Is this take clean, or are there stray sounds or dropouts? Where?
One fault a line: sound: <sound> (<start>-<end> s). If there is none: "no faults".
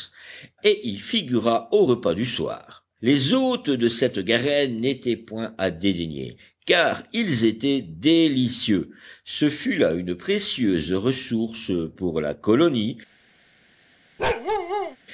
sound: bark (14.2-15.0 s)